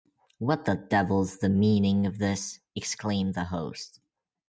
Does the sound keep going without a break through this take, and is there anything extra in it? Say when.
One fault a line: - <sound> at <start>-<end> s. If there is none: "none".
none